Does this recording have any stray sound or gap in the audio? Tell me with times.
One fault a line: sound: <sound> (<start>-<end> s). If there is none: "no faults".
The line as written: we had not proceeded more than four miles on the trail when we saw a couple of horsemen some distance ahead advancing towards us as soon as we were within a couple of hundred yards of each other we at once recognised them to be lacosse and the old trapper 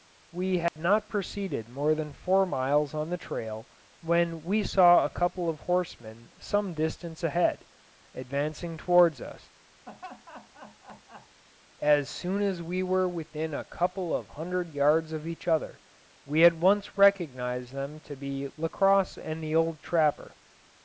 sound: dropout (0.7-0.8 s)
sound: laugh (9.9-11.4 s)